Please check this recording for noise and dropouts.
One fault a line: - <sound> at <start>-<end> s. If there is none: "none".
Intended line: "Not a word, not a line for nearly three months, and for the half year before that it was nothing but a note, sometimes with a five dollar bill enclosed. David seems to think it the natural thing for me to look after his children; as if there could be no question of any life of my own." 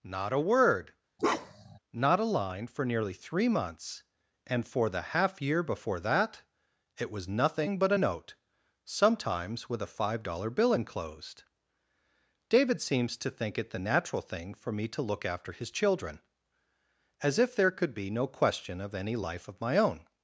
- bark at 1.2-1.8 s